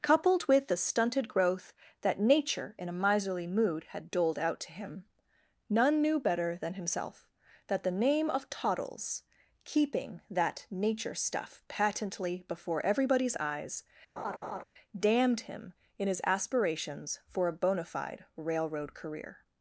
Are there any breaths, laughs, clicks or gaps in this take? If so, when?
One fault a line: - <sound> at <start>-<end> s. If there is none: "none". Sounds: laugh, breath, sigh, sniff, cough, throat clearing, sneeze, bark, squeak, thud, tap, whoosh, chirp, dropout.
- laugh at 14.2-14.6 s